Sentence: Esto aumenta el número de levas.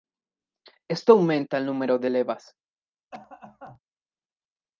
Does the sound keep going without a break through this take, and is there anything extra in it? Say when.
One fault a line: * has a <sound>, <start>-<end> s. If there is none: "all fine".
* has a cough, 3.1-3.8 s